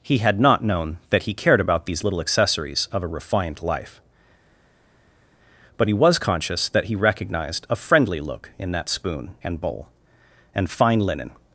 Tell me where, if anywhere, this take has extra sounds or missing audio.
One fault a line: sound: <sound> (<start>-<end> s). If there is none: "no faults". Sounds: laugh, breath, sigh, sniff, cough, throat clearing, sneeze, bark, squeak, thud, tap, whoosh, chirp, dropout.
no faults